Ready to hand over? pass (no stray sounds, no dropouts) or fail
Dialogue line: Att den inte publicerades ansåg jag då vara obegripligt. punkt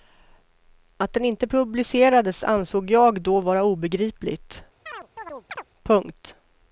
fail